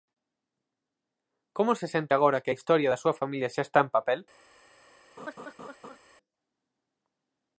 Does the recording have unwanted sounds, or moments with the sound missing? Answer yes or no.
yes